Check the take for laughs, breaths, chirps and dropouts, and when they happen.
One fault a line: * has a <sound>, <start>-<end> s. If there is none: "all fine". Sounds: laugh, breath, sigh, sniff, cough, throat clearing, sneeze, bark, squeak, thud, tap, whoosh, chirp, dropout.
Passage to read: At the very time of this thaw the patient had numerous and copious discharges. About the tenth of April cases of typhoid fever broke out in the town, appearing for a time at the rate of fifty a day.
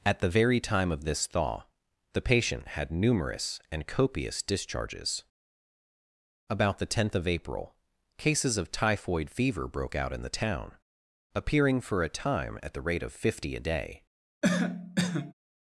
* has a cough, 14.4-15.3 s